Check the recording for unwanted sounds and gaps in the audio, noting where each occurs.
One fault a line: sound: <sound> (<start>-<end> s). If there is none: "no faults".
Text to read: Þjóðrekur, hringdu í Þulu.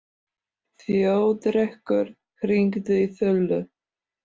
no faults